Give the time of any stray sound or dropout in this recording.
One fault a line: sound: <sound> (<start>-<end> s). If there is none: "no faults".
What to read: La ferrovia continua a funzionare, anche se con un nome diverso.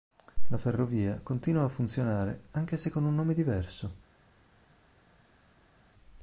no faults